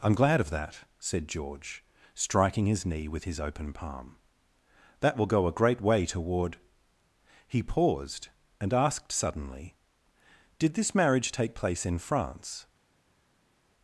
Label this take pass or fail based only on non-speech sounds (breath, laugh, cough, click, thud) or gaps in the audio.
pass